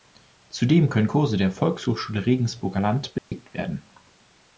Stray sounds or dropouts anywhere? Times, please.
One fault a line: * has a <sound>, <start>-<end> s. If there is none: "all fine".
* has a dropout, 3.2-3.3 s